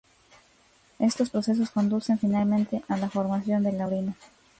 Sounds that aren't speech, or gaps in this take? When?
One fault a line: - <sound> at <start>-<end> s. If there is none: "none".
none